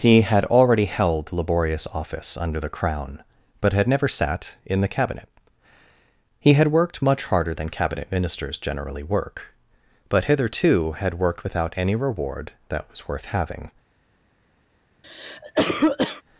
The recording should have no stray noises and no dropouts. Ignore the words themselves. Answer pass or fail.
fail